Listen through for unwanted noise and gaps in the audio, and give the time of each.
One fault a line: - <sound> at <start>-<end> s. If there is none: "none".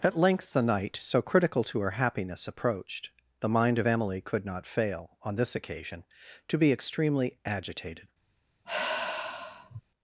- sigh at 8.7-9.8 s